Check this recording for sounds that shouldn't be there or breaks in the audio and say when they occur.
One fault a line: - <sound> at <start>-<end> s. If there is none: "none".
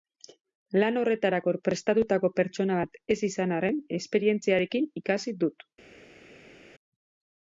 none